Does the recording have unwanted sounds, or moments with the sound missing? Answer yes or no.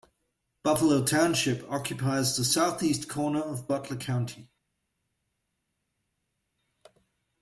no